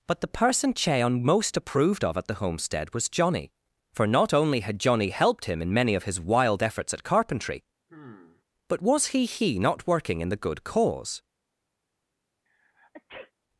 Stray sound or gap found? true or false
true